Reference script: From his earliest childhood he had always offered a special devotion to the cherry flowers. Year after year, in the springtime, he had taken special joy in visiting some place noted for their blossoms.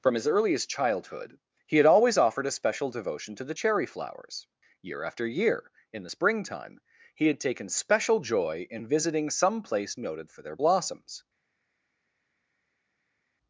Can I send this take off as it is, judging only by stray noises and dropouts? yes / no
yes